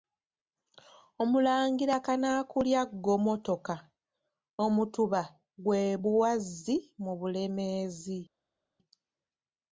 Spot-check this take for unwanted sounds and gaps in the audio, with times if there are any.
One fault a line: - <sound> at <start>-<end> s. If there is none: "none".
none